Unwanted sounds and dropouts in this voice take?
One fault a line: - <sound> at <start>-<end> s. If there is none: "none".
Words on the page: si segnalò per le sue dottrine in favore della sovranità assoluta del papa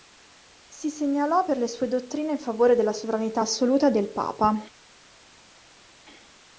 none